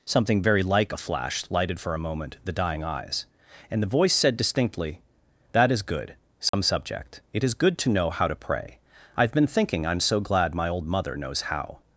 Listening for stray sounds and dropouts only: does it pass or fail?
fail